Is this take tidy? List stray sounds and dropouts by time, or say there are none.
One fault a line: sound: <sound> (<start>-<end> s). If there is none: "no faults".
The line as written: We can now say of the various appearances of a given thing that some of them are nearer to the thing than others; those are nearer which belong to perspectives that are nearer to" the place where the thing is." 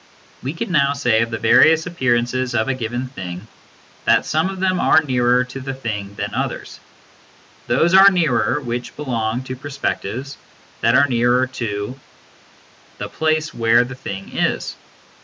no faults